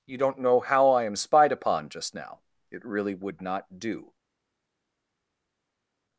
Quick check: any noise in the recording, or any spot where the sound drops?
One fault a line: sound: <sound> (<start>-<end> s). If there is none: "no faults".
no faults